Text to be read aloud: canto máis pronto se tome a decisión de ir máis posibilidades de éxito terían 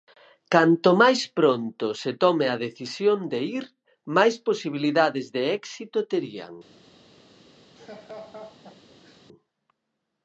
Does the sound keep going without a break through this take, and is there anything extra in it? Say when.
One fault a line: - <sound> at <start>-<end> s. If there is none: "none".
- laugh at 7.8-9.2 s